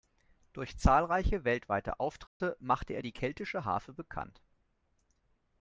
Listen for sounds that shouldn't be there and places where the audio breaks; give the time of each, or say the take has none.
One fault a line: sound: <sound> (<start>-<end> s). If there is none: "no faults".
sound: dropout (2.3-2.4 s)